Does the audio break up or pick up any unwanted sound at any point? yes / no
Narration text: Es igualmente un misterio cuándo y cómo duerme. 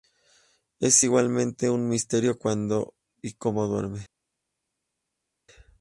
no